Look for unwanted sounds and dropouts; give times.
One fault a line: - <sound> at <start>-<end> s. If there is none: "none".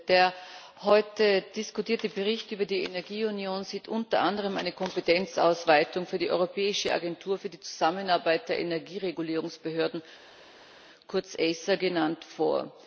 none